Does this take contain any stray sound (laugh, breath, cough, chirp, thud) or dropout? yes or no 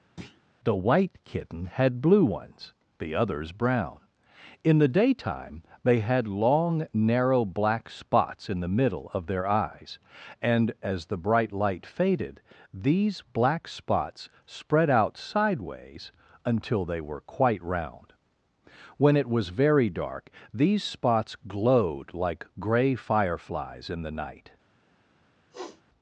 yes